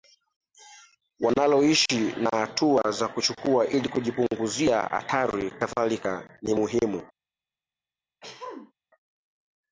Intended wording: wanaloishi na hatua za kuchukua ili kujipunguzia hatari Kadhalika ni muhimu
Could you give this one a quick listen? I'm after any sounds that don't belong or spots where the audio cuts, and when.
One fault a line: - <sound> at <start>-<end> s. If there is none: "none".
- throat clearing at 8.2-8.7 s